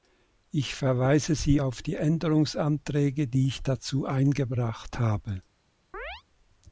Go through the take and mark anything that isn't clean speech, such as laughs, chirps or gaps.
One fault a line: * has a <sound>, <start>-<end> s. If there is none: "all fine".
* has a chirp, 5.9-6.2 s